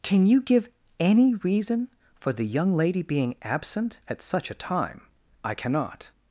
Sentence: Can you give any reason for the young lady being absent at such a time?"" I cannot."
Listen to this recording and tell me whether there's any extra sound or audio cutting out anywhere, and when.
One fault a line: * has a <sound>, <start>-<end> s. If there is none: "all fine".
all fine